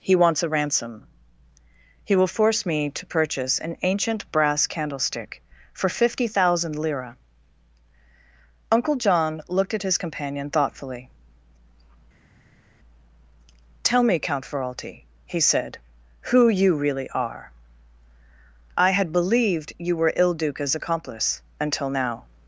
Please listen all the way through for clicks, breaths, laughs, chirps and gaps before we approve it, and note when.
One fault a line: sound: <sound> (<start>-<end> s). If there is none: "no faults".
no faults